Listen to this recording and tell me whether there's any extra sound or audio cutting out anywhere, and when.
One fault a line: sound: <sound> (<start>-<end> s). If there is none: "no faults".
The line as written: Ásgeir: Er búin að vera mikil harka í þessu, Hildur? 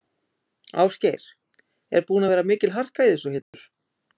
sound: dropout (3.4-3.5 s)